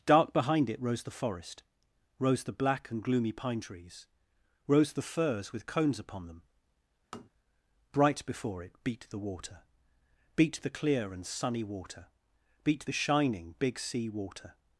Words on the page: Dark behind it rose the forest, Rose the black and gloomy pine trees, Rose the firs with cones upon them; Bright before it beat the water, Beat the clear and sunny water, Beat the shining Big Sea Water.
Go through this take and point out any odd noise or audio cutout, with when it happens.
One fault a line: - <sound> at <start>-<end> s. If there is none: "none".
- tap at 7.1-7.3 s